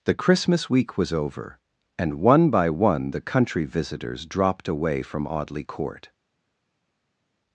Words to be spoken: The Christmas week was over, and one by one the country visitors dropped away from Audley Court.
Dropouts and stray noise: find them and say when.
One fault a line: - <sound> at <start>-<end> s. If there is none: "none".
none